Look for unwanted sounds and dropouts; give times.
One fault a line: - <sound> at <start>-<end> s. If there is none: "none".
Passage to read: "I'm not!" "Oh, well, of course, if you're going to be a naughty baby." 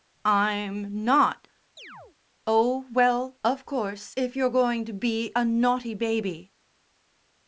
- chirp at 1.8-2.2 s